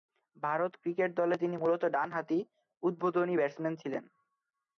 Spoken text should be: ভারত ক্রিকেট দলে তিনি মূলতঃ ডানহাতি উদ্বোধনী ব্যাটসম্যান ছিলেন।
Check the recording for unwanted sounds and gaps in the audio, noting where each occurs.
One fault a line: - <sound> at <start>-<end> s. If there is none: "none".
none